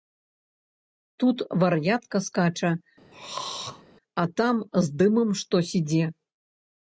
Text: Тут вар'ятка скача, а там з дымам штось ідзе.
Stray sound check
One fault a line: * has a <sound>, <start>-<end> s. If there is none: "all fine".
* has a throat clearing, 3.1-3.8 s